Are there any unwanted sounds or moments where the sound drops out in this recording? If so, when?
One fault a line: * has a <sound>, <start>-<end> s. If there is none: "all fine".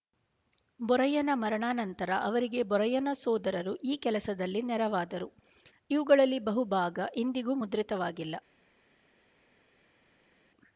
all fine